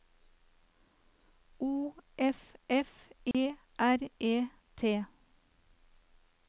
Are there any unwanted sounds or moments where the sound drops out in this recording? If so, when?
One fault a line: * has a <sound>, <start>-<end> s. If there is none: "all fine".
* has a dropout, 3.3-3.3 s